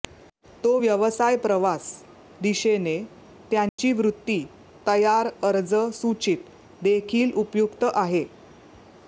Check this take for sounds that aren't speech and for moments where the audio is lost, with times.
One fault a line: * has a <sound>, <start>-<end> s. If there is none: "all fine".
* has a dropout, 3.7-3.8 s